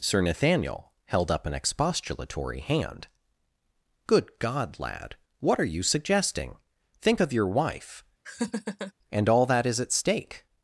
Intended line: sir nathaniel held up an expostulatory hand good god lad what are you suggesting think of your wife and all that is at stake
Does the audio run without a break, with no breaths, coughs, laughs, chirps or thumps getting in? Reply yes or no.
no